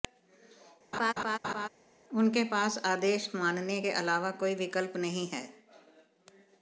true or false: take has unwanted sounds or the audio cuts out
true